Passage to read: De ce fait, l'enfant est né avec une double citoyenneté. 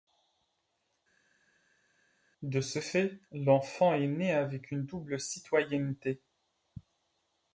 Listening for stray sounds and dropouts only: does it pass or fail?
pass